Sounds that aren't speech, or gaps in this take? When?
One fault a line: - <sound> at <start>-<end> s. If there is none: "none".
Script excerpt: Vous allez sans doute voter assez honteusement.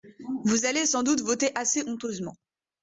none